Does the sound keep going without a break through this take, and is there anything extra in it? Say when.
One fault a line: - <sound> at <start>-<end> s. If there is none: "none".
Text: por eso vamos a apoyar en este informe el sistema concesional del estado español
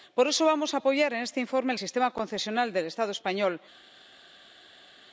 none